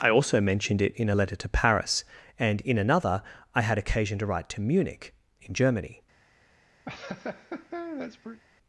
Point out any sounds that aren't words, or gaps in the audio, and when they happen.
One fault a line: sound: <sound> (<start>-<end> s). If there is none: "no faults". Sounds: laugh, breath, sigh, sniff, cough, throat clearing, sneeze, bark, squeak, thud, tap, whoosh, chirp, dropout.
sound: laugh (6.9-8.4 s)